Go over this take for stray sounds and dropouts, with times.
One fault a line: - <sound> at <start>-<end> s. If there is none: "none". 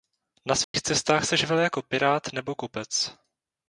- dropout at 0.6-0.7 s